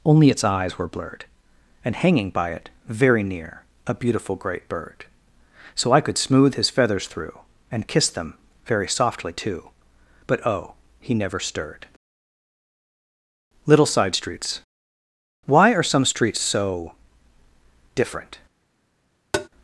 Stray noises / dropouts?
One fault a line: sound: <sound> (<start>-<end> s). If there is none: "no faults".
sound: tap (19.3-19.5 s)